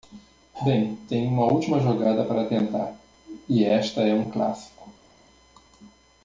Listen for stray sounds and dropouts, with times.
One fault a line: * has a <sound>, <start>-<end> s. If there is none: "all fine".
all fine